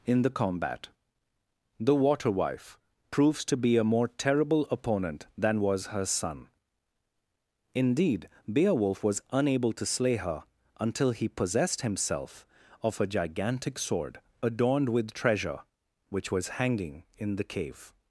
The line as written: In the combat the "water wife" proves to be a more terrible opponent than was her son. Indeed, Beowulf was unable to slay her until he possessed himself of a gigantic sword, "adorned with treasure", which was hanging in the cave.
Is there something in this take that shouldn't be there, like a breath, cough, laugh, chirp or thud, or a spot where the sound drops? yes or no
no